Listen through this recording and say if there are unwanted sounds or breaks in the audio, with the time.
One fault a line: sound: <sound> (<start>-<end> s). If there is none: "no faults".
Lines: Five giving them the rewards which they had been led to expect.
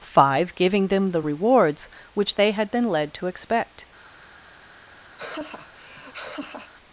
sound: laugh (5.2-6.7 s)